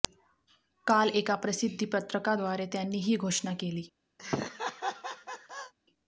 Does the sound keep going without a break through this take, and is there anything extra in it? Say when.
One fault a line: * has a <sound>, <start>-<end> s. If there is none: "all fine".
* has a laugh, 4.2-5.7 s